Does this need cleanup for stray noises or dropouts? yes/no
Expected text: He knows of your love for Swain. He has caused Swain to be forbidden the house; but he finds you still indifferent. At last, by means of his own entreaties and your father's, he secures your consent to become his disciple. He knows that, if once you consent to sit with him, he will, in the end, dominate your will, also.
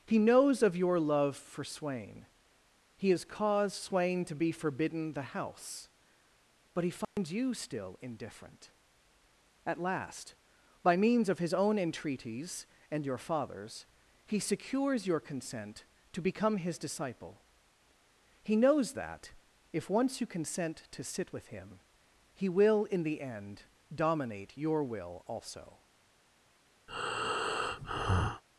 yes